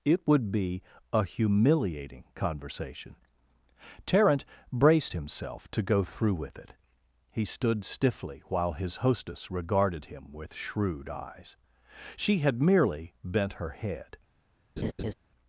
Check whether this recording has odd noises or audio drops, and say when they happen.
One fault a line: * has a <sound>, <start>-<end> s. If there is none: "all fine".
* has a laugh, 14.8-15.1 s